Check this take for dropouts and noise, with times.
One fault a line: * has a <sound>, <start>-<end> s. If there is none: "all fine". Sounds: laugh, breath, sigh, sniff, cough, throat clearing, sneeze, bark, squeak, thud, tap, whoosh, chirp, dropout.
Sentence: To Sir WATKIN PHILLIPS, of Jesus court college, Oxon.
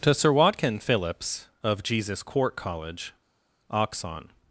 all fine